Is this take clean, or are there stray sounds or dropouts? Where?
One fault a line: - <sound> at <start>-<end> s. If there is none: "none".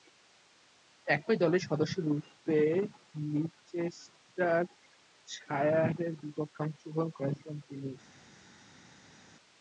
none